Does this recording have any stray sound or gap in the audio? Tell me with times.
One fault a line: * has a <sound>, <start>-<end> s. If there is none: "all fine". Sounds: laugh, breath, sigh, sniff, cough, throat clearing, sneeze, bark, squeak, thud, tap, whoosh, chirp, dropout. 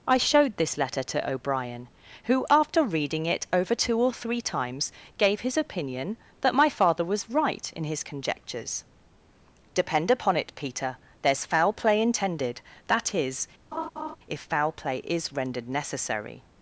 * has a laugh, 13.7-14.2 s